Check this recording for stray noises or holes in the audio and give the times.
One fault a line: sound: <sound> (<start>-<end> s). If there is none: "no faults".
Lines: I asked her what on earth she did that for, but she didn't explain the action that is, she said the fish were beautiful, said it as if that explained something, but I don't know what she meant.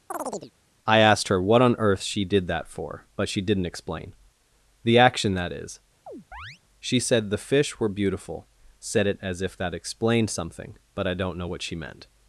sound: chirp (0.1-0.5 s)
sound: chirp (6.1-6.6 s)